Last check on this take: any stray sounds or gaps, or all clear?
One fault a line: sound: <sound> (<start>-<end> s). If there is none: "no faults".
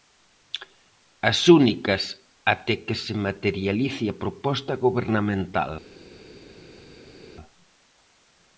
no faults